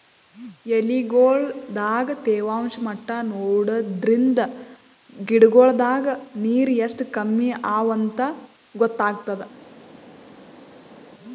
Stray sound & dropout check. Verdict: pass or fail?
pass